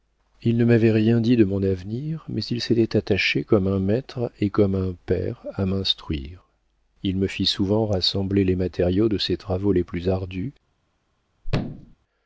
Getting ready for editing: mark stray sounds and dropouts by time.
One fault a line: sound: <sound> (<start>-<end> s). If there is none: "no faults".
sound: thud (11.4-12.0 s)